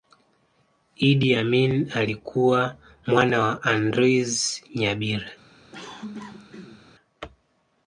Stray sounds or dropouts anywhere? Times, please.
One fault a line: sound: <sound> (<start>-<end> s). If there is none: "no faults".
sound: cough (5.7-6.9 s)